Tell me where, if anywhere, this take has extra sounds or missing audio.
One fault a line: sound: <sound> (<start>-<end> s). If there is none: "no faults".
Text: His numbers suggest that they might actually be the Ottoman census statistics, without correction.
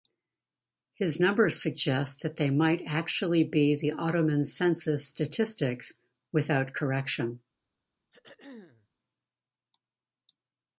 sound: throat clearing (8.1-8.9 s)